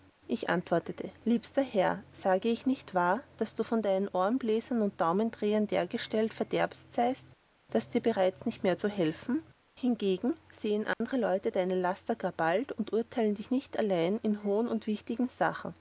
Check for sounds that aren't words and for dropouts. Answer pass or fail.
fail